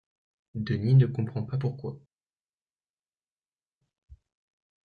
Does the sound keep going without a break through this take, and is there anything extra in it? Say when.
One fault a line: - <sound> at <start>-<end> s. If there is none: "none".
none